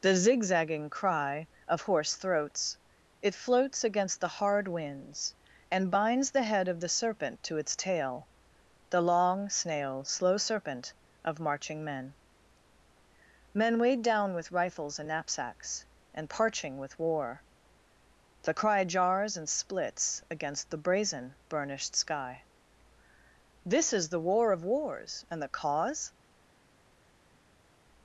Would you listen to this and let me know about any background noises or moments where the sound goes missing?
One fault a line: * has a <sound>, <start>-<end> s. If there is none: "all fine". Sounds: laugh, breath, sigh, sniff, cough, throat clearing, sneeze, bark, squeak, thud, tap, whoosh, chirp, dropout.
all fine